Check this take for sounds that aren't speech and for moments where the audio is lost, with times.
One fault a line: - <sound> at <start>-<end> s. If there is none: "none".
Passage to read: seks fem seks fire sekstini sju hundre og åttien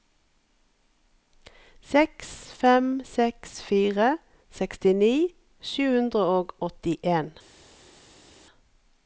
none